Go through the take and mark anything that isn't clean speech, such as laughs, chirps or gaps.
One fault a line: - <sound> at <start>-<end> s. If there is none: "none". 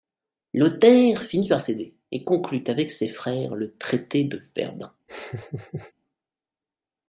- laugh at 5.1-5.9 s